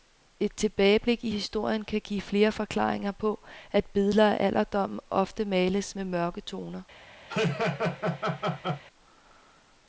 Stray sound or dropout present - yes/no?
yes